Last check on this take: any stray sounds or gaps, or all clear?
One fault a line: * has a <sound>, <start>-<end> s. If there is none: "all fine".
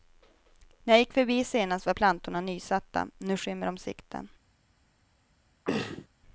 * has a throat clearing, 5.6-6.1 s